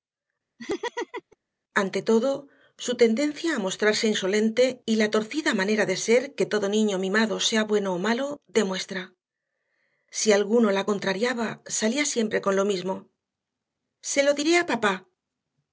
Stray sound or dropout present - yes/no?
yes